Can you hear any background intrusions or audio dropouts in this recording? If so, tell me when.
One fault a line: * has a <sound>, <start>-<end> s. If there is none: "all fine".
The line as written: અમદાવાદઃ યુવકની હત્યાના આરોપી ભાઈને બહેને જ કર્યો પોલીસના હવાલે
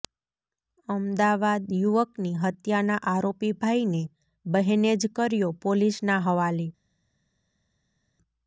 all fine